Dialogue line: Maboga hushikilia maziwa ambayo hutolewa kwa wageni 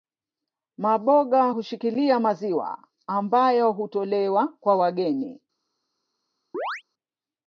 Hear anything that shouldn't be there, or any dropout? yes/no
yes